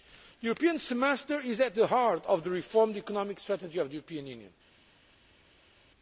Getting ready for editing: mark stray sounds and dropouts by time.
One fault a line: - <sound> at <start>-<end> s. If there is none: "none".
none